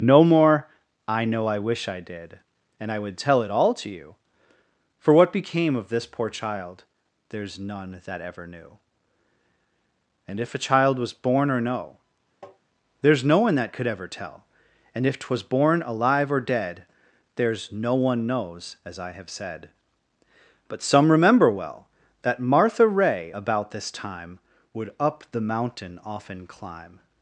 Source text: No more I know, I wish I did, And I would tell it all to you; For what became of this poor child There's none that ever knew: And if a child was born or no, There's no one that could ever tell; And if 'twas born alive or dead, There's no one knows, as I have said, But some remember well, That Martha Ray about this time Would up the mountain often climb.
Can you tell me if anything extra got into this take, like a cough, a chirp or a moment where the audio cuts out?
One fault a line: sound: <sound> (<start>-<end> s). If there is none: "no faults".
sound: tap (12.4-12.6 s)